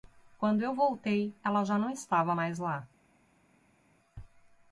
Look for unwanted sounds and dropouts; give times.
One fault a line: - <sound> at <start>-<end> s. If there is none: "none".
none